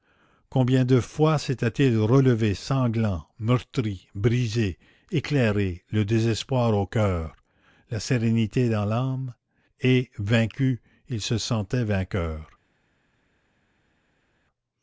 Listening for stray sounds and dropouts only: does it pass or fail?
pass